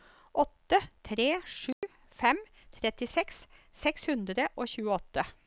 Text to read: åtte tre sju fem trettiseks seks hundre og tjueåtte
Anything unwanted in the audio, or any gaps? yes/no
yes